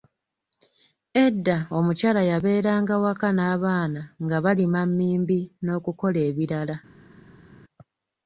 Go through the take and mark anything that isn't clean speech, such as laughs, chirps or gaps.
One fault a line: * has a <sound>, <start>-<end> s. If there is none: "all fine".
all fine